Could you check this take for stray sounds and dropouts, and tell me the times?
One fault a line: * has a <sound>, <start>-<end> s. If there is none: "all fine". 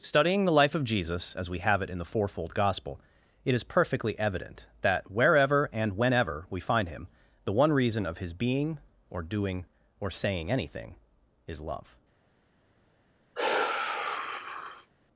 * has a sigh, 13.4-14.9 s